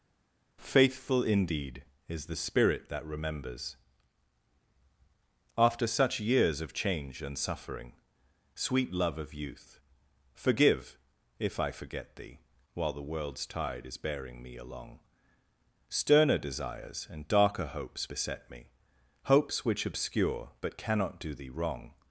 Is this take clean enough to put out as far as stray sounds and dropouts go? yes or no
yes